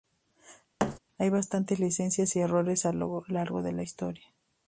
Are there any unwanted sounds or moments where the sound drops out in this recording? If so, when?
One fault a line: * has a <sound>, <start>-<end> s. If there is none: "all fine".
* has a thud, 0.8-1.0 s